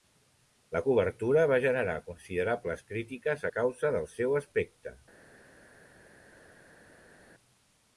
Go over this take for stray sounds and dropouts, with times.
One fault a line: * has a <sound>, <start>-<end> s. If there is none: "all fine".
all fine